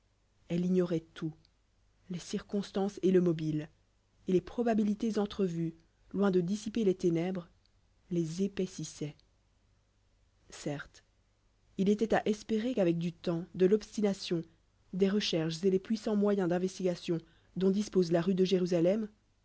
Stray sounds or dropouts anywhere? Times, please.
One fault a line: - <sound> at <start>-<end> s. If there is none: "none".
none